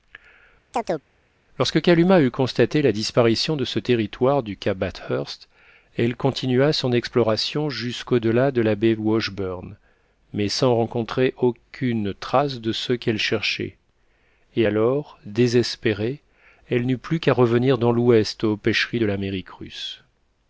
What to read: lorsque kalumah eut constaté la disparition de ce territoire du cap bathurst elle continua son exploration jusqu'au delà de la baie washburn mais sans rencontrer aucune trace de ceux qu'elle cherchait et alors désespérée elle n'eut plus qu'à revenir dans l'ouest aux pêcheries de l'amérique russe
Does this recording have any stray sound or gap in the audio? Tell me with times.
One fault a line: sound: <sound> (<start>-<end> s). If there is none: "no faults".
sound: chirp (0.7-1.1 s)